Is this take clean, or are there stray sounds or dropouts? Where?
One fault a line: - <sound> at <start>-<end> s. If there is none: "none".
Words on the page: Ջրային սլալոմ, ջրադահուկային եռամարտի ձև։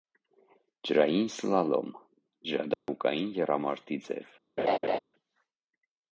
- dropout at 2.7-2.9 s
- laugh at 4.6-5.0 s